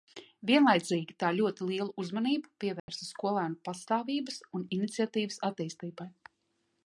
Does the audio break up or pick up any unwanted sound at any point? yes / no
yes